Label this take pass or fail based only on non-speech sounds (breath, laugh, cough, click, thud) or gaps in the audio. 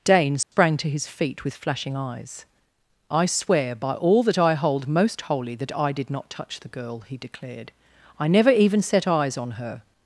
fail